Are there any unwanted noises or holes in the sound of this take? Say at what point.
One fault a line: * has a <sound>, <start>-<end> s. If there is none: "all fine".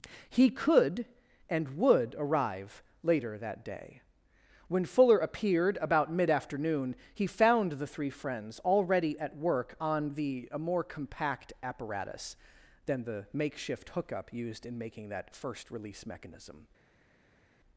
all fine